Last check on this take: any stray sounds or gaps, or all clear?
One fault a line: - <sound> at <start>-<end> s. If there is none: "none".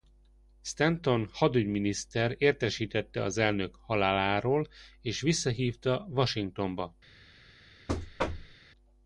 - thud at 7.9-8.6 s